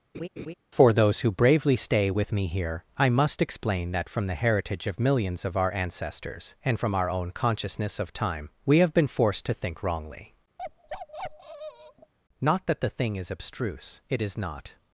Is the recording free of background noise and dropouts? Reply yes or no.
no